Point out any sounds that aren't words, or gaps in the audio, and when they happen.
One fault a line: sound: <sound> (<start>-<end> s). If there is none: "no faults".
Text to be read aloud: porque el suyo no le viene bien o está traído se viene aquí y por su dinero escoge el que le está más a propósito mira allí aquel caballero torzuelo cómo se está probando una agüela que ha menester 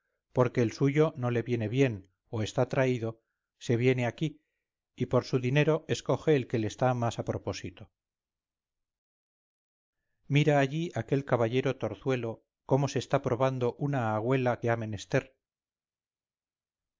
no faults